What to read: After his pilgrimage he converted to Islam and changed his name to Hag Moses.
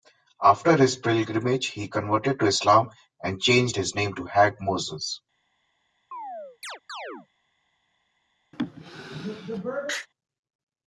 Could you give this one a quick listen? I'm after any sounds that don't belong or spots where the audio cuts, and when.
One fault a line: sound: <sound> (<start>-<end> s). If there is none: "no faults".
sound: chirp (6.1-7.3 s)
sound: sneeze (8.5-10.1 s)